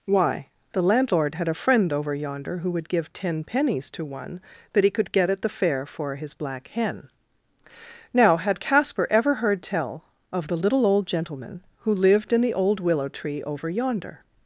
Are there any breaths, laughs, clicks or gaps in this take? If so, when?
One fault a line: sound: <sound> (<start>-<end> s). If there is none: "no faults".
no faults